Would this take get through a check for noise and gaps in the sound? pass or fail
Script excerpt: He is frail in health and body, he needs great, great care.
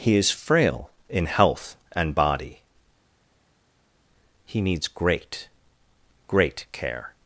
pass